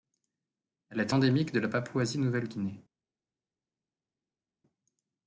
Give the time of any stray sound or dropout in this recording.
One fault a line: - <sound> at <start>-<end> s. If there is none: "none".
none